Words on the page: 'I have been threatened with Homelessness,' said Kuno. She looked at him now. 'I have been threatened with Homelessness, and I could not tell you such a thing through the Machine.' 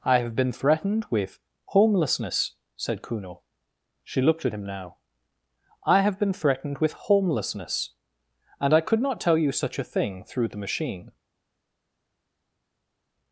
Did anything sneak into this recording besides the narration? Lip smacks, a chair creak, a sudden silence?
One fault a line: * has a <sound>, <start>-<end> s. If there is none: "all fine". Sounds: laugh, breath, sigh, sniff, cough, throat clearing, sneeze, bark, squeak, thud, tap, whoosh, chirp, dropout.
all fine